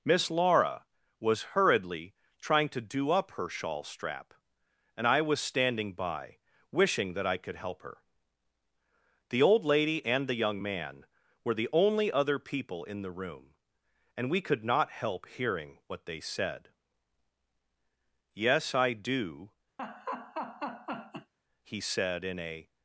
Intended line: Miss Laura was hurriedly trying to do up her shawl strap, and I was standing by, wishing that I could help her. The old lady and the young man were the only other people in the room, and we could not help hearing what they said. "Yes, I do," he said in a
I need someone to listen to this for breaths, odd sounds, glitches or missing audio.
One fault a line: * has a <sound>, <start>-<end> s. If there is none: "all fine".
* has a laugh, 19.8-21.3 s